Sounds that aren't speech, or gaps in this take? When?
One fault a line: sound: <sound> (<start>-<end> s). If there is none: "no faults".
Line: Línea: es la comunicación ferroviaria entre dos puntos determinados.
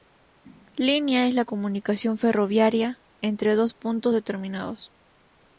no faults